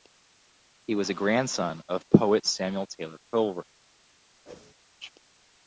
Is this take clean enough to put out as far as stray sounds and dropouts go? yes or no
no